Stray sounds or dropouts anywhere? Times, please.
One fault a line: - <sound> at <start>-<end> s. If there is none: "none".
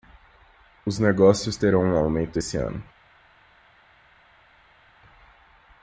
none